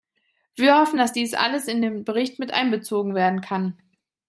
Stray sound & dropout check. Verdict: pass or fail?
pass